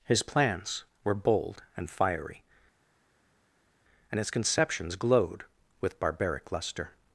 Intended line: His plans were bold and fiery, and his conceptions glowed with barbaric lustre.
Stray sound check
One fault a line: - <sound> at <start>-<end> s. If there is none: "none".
none